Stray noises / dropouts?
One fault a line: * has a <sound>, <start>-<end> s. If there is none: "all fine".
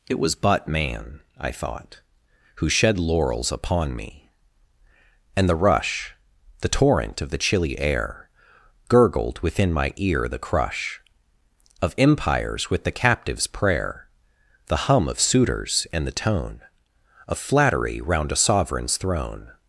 all fine